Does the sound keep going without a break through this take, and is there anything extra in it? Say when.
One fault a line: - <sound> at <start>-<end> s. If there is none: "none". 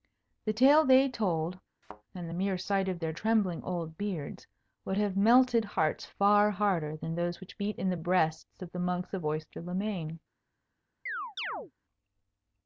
- thud at 1.8-2.0 s
- chirp at 11.1-11.7 s